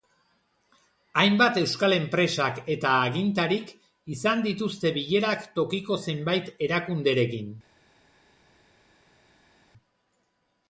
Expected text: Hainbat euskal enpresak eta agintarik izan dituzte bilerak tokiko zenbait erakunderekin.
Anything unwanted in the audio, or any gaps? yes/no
no